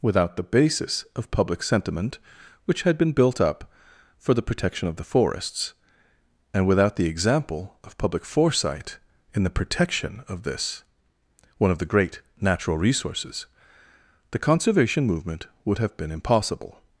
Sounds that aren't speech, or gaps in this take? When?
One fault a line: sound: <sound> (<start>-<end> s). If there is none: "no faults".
no faults